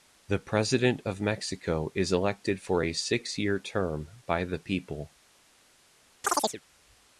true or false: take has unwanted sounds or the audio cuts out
true